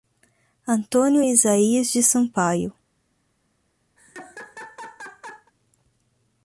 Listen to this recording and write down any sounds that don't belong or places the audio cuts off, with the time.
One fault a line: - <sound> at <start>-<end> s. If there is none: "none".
- laugh at 4.0-5.5 s